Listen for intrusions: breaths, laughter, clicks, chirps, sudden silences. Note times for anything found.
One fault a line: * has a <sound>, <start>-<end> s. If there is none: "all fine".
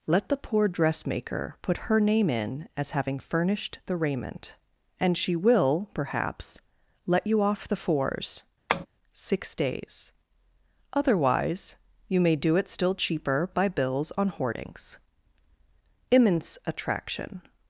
* has a tap, 8.7-8.9 s